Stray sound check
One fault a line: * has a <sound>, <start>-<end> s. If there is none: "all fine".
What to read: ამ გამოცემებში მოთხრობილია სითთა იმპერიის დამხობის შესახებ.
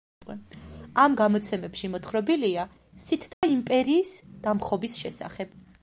* has a dropout, 3.3-3.4 s